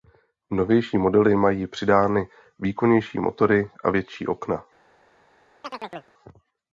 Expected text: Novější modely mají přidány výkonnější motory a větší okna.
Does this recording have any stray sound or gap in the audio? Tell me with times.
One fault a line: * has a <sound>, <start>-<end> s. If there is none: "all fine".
* has a chirp, 5.6-6.1 s